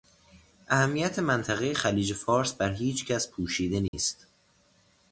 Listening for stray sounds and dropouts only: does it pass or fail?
fail